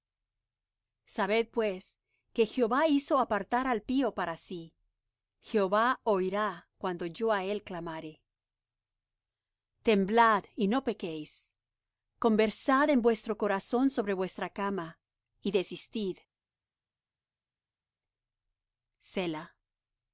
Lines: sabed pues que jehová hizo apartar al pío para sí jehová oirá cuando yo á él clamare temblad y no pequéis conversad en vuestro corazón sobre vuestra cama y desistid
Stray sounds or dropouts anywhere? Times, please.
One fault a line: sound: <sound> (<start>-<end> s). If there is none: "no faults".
no faults